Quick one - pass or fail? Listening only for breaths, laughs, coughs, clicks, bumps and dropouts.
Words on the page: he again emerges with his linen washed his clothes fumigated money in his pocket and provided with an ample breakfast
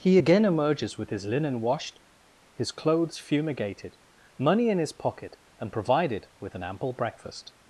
pass